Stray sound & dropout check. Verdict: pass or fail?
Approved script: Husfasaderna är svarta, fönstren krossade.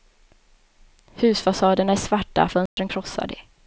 fail